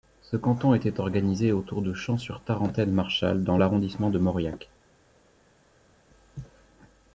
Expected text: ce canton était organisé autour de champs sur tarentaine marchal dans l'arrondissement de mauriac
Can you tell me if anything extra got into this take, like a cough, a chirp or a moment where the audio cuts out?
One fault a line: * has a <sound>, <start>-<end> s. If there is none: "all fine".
all fine